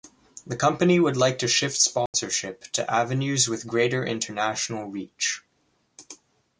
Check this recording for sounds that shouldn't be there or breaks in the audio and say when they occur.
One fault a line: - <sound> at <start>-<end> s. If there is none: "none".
- dropout at 2.1-2.1 s